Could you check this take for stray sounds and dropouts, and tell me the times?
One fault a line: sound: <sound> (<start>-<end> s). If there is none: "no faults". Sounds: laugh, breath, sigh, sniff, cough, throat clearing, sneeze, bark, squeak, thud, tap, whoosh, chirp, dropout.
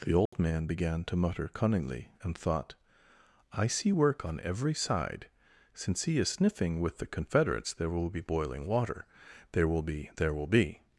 sound: dropout (0.3-0.3 s)